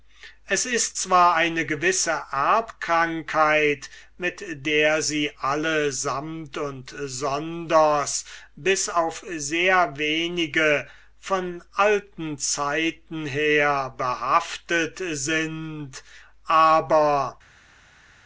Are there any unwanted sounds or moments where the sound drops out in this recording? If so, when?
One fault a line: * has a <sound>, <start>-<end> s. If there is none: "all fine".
all fine